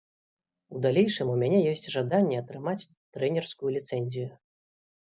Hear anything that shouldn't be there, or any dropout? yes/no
no